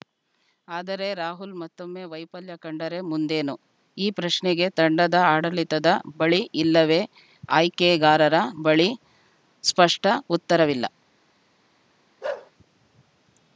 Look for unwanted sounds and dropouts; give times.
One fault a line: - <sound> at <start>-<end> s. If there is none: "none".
- bark at 12.2-12.5 s